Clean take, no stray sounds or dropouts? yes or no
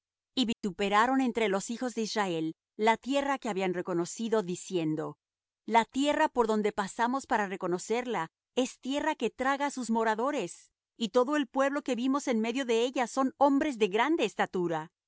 no